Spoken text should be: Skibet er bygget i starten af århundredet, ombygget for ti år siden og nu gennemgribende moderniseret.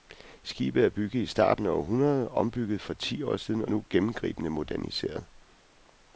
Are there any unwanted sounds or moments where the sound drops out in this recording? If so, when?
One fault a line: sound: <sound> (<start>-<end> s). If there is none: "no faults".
no faults